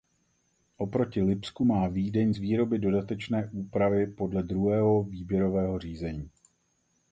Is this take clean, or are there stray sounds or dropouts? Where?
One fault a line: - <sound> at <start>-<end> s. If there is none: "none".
none